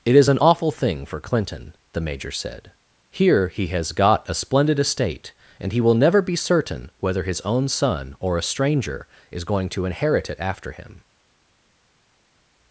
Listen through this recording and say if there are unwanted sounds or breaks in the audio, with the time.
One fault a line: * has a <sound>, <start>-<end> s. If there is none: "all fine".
all fine